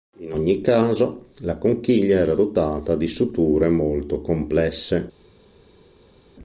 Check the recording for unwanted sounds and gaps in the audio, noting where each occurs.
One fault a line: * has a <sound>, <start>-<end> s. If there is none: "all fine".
all fine